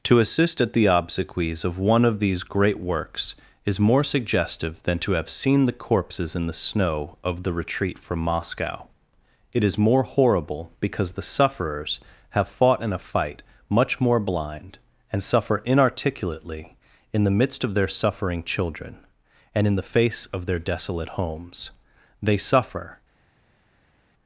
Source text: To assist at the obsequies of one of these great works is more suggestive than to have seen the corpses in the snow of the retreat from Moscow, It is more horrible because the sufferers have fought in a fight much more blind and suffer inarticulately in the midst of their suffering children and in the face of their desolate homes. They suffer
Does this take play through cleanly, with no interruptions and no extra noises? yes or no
yes